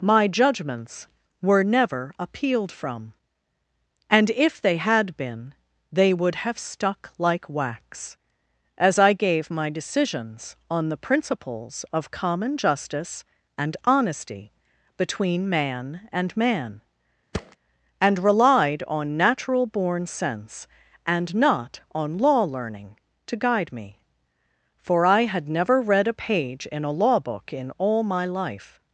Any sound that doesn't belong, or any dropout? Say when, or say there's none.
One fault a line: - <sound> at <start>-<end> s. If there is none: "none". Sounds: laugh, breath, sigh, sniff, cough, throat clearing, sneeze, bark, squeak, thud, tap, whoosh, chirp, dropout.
- thud at 17.3-17.6 s